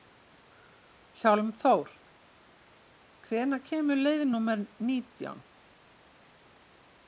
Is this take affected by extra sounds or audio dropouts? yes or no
no